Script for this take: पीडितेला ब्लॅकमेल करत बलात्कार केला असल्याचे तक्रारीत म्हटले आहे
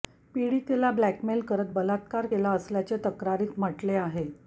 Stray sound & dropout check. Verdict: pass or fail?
pass